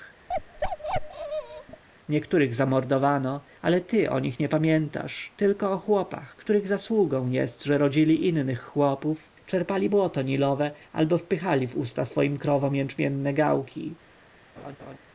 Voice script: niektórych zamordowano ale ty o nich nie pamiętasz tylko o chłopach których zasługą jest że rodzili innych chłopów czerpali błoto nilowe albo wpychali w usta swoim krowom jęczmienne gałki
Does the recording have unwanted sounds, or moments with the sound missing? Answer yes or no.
yes